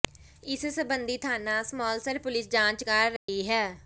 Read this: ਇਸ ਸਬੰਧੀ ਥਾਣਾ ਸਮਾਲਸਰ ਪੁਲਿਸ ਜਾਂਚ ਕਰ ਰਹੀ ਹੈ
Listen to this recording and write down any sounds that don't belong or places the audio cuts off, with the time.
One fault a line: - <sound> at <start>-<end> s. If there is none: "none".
- dropout at 3.2-3.3 s